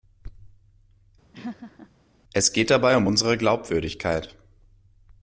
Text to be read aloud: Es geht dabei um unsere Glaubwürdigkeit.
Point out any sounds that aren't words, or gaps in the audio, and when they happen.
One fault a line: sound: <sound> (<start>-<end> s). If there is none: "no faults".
sound: laugh (1.3-1.9 s)